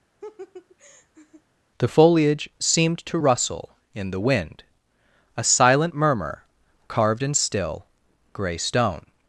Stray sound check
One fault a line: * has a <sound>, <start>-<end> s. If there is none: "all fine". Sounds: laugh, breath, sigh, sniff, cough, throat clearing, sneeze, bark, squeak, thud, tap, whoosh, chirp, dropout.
* has a laugh, 0.2-1.4 s